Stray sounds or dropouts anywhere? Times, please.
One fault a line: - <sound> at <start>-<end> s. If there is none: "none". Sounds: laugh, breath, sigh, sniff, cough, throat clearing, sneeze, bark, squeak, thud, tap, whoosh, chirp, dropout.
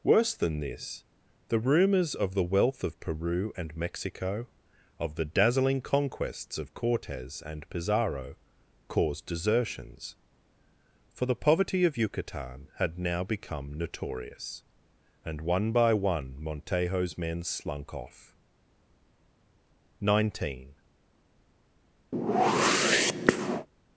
- whoosh at 22.1-23.7 s